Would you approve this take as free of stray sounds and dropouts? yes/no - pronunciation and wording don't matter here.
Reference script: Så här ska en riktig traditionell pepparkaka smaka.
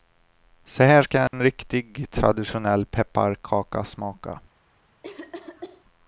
no